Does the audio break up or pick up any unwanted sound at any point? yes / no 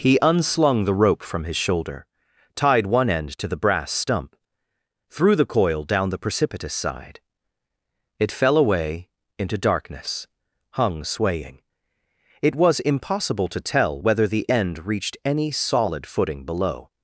no